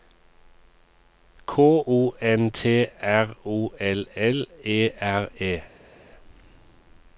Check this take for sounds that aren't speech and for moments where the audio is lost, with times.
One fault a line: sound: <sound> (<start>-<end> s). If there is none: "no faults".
no faults